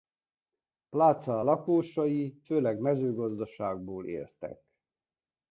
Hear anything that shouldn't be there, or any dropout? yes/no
no